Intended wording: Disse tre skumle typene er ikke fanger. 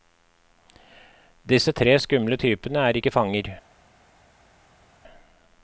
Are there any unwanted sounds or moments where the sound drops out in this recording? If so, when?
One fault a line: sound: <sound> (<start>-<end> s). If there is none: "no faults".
no faults